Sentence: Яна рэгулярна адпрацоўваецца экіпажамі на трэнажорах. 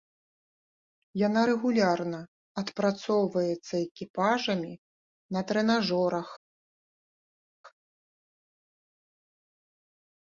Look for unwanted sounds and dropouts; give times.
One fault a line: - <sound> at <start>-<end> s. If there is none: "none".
none